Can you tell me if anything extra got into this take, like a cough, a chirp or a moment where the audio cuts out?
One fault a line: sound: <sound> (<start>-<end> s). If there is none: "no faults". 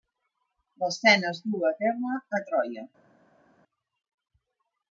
no faults